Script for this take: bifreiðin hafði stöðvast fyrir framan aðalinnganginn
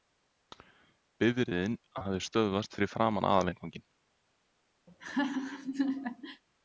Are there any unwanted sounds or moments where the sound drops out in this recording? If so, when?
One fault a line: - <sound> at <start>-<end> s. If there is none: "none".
- laugh at 4.9-6.4 s